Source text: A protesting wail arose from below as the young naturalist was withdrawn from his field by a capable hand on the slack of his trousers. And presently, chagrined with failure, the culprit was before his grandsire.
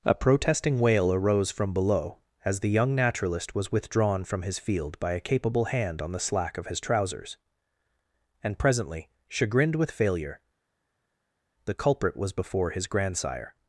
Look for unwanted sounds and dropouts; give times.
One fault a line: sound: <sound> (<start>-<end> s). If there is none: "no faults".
no faults